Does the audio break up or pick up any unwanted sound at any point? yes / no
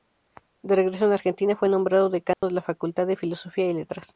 yes